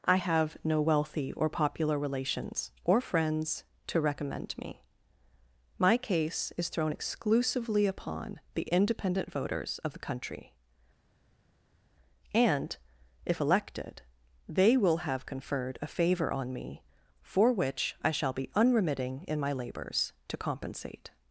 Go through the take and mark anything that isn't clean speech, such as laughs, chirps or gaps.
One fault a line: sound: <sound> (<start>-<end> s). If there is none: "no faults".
no faults